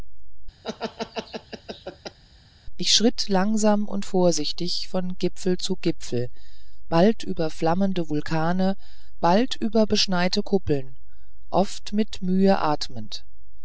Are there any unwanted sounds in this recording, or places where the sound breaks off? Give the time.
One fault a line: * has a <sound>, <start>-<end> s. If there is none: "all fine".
* has a laugh, 0.6-2.2 s